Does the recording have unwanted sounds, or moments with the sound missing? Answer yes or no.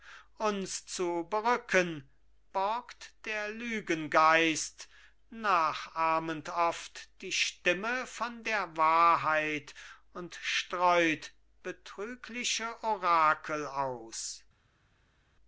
no